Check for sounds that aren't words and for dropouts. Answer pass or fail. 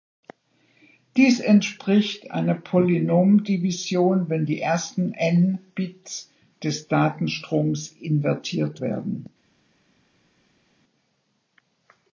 pass